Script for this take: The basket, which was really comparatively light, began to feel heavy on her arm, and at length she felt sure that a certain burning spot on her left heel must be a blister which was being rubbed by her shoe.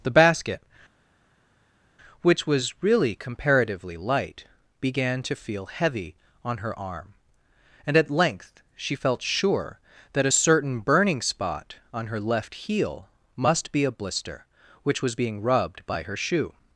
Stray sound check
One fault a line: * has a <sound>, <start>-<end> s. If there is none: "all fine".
all fine